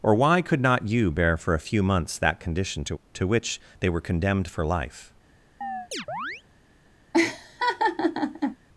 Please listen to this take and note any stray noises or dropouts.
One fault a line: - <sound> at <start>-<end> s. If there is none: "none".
- chirp at 5.6-6.4 s
- laugh at 7.1-8.6 s